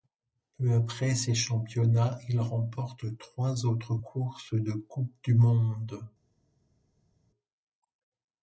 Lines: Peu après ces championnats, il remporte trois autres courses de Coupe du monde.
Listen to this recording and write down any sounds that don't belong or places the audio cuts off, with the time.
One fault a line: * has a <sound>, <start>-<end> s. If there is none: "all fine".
all fine